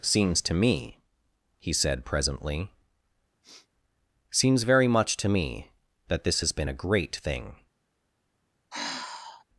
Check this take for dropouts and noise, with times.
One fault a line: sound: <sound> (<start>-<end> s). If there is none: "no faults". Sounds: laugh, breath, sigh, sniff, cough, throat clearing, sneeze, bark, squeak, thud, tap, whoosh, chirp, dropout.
sound: sniff (3.4-3.7 s)
sound: sigh (8.7-9.4 s)